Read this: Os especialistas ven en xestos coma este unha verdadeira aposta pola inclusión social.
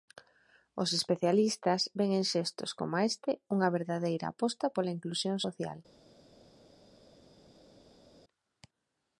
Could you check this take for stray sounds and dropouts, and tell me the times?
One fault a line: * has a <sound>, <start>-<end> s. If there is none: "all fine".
all fine